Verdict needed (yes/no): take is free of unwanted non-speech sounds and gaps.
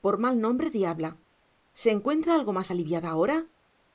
yes